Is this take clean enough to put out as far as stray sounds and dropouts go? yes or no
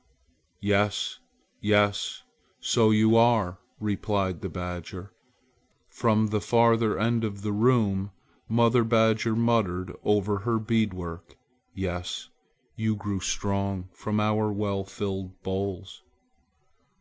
yes